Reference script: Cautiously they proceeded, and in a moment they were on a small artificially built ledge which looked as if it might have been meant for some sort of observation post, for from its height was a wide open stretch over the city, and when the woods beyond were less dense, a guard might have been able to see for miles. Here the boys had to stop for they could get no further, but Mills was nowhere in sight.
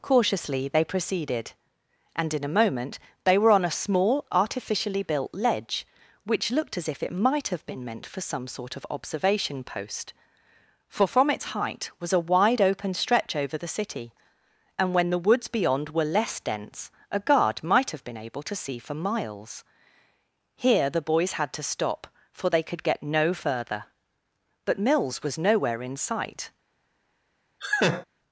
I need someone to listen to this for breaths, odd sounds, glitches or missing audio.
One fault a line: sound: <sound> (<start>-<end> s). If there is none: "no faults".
sound: laugh (27.6-28.1 s)